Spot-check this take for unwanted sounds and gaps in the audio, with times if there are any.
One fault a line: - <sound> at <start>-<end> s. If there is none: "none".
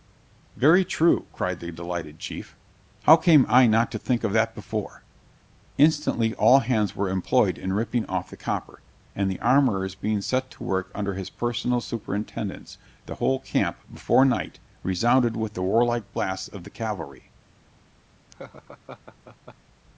- laugh at 18.3-19.5 s